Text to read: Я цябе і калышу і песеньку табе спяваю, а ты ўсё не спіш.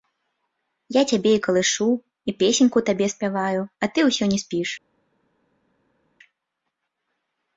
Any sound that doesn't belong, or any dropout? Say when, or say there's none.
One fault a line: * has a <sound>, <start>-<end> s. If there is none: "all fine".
all fine